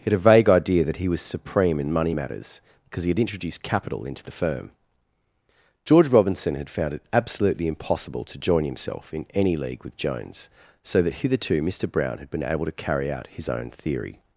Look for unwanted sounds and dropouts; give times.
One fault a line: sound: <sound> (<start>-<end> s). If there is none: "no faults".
no faults